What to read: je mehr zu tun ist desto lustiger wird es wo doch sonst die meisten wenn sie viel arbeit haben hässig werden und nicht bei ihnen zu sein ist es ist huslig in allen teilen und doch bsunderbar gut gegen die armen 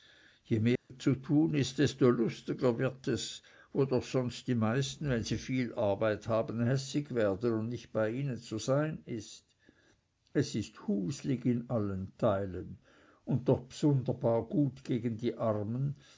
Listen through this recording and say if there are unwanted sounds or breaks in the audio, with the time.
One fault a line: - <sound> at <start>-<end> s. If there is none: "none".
- dropout at 0.8-0.9 s